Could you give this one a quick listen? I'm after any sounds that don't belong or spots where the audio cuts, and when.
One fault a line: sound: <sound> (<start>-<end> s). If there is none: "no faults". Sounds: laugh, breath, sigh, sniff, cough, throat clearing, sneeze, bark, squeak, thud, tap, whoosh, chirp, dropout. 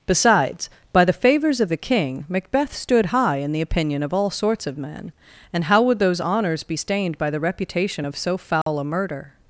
sound: dropout (8.6-8.7 s)